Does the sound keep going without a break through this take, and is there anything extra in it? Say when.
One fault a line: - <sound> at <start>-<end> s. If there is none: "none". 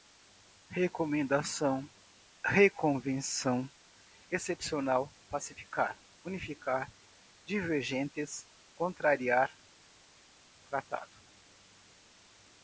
none